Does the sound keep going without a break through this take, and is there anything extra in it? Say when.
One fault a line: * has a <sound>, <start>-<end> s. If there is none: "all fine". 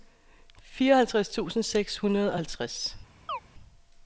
* has a chirp, 3.3-3.4 s